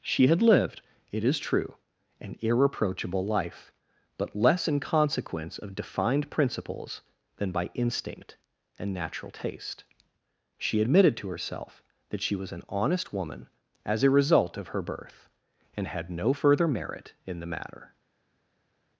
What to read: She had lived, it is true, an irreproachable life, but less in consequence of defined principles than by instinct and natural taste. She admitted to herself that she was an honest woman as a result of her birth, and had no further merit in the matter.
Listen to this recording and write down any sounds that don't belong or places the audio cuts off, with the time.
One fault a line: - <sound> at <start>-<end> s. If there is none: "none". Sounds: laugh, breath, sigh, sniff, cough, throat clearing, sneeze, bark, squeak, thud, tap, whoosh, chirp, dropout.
none